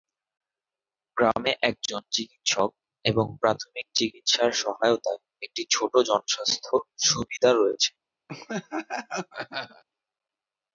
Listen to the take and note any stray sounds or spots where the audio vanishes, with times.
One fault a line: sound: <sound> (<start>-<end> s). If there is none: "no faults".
sound: laugh (8.3-9.8 s)